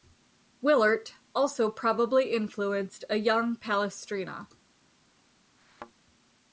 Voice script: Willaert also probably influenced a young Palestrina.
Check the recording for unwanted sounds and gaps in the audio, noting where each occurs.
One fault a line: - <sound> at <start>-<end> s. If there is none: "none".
- thud at 5.6-5.9 s